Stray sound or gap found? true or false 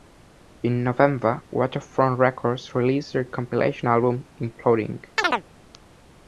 true